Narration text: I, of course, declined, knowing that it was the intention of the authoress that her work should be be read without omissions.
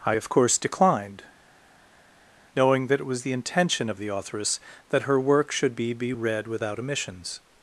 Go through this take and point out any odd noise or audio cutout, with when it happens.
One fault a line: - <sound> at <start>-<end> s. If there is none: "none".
none